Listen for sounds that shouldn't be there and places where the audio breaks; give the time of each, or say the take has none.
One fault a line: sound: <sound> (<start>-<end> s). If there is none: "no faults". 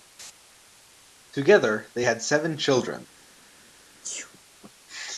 sound: sneeze (4.0-4.3 s)